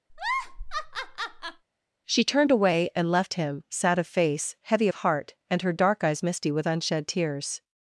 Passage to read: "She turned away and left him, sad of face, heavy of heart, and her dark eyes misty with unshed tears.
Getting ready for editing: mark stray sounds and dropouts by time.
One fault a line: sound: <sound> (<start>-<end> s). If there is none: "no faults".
sound: laugh (0.1-1.6 s)